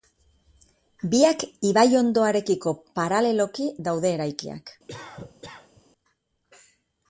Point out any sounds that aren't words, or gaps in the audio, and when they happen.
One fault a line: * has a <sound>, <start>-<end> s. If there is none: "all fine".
* has a cough, 4.9-5.8 s